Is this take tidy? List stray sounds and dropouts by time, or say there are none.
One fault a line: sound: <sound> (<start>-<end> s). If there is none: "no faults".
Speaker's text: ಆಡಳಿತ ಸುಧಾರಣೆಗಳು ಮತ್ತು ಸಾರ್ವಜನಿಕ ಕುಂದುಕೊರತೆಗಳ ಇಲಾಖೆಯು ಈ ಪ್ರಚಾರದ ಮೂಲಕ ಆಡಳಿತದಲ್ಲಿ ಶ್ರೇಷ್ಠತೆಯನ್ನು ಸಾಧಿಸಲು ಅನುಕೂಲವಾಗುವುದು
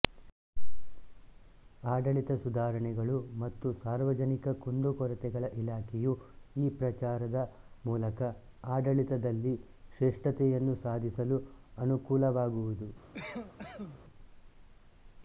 sound: cough (13.1-14.0 s)